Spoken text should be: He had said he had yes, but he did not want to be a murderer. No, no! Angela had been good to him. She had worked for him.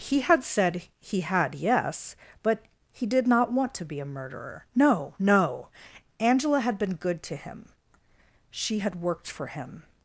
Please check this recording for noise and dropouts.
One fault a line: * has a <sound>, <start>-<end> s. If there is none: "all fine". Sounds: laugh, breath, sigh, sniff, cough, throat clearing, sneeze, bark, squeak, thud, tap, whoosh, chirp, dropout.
all fine